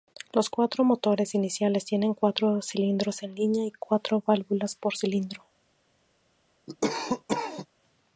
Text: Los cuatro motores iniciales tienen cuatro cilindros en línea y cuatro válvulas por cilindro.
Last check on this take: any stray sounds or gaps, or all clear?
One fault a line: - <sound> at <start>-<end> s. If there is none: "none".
- cough at 6.7-7.7 s